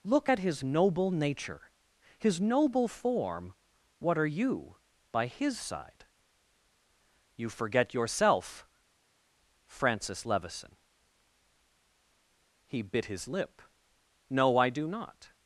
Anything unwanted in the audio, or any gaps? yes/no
no